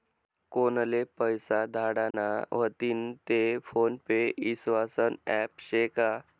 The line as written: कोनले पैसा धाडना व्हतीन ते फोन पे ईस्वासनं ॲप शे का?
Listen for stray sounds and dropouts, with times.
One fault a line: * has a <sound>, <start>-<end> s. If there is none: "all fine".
* has a dropout, 2.1-2.1 s